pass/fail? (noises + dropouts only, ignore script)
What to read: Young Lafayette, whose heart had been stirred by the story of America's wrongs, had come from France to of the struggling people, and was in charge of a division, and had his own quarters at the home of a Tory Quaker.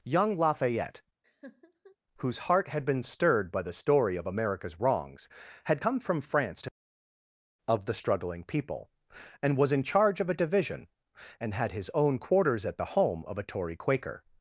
fail